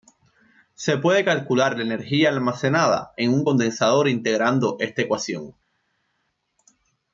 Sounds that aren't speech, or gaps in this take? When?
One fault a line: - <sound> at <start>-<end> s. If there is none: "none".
none